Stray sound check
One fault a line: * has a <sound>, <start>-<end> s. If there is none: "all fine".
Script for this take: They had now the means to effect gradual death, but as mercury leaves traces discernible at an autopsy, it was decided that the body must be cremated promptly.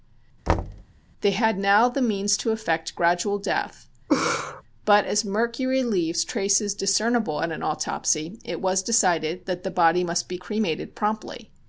* has a thud, 0.5-0.8 s
* has a laugh, 4.1-4.6 s